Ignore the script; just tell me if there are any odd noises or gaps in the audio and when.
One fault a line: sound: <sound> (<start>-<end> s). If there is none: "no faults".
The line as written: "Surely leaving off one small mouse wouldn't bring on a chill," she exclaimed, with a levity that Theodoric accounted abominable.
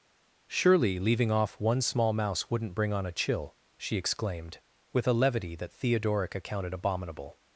no faults